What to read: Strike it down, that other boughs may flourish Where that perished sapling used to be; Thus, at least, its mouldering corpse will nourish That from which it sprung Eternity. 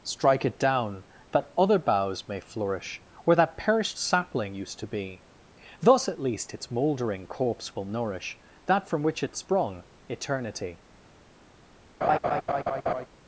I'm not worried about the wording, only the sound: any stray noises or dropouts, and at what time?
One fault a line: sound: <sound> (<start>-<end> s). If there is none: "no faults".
sound: laugh (12.0-13.1 s)